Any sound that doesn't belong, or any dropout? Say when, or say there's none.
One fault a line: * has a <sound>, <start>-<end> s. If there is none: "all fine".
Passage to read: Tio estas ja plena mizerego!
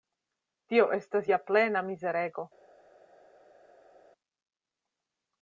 all fine